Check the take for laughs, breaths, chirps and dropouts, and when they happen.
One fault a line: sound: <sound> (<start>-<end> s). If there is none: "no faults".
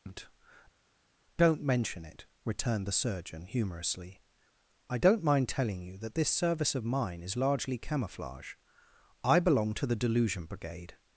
no faults